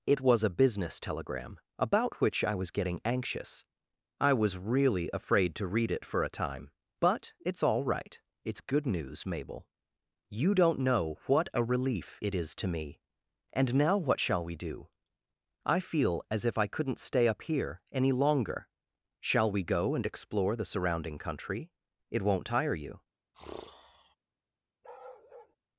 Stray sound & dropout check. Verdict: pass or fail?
fail